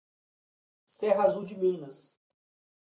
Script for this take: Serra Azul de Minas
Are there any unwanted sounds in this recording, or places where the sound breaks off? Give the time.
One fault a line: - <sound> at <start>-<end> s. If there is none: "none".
none